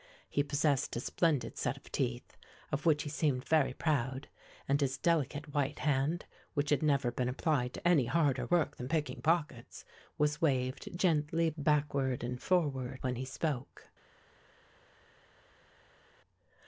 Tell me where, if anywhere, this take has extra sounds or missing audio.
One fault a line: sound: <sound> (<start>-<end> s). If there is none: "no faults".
no faults